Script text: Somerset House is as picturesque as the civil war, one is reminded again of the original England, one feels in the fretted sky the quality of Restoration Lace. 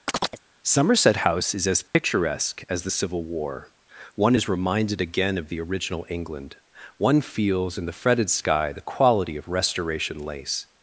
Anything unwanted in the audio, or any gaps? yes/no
yes